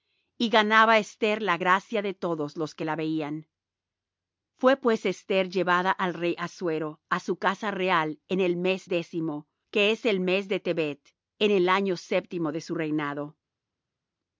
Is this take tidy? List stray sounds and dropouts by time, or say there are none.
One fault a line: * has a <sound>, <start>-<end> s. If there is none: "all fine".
all fine